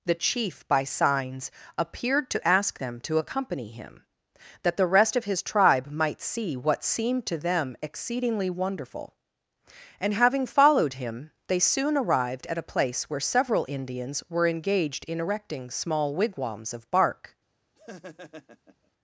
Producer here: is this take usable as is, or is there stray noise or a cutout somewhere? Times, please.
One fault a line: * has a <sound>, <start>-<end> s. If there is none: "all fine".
* has a laugh, 17.8-18.9 s